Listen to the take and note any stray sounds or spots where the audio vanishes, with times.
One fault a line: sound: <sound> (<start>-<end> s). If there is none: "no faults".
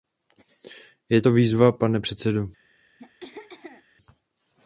sound: throat clearing (3.0-3.8 s)